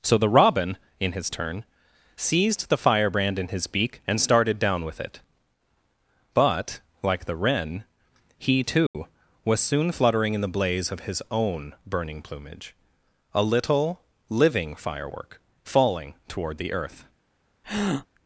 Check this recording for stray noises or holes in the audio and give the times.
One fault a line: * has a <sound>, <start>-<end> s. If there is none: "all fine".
* has a dropout, 8.9-8.9 s
* has a breath, 17.6-18.1 s